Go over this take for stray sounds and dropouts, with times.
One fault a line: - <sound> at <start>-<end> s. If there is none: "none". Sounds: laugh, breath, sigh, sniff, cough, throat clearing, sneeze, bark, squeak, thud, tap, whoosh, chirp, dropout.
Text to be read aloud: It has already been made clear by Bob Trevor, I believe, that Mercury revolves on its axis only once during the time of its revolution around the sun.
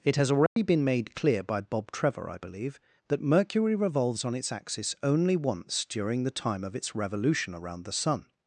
- dropout at 0.5-0.6 s